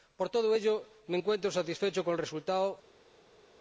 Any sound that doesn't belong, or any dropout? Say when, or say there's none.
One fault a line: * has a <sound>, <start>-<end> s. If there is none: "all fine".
all fine